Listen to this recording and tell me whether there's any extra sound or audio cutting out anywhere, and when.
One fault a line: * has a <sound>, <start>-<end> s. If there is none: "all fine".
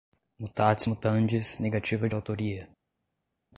all fine